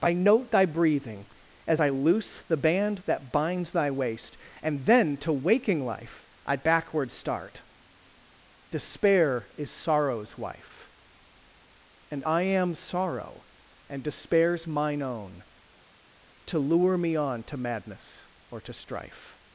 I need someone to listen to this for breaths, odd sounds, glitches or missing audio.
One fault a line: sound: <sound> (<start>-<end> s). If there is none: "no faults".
no faults